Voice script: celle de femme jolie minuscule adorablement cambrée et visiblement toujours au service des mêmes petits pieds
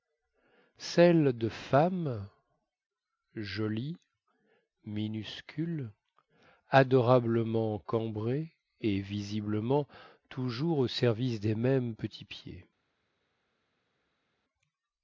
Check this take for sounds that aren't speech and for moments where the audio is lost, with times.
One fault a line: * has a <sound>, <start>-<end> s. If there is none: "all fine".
all fine